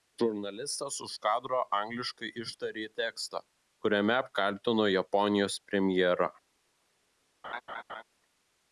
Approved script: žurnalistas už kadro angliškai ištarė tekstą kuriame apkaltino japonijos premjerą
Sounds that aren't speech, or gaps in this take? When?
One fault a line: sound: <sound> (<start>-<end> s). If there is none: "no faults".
sound: laugh (7.4-8.0 s)